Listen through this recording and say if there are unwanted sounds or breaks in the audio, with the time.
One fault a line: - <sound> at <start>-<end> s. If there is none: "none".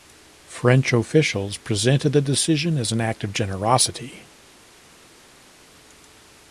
none